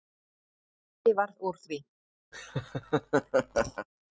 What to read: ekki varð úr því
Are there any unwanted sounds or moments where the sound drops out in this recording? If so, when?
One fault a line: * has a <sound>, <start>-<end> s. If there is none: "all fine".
* has a laugh, 2.3-3.9 s